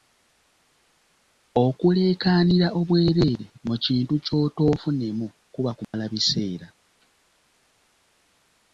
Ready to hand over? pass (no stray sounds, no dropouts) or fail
fail